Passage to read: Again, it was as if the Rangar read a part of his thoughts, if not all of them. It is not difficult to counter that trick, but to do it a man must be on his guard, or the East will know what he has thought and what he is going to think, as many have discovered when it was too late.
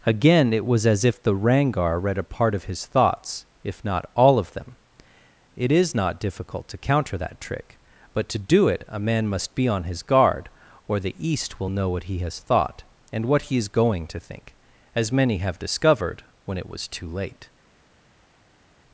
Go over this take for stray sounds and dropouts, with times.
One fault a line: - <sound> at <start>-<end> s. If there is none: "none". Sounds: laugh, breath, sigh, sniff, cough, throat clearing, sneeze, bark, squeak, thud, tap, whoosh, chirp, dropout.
none